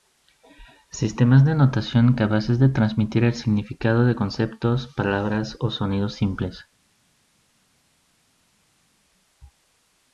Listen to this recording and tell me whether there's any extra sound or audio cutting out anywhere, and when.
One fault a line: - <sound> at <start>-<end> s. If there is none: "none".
none